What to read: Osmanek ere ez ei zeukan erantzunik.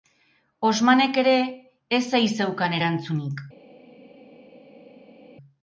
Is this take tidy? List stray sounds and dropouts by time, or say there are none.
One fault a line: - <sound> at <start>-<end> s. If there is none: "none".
none